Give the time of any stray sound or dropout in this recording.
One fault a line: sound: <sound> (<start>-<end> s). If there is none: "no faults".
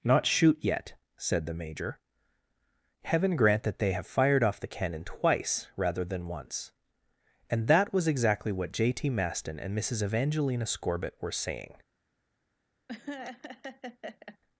sound: laugh (12.9-14.4 s)